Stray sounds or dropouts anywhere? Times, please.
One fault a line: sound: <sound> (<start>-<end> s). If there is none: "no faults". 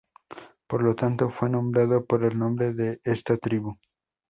no faults